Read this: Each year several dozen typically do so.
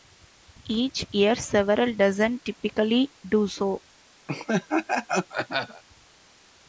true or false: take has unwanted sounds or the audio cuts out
true